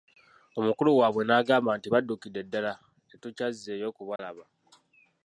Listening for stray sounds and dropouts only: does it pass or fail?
fail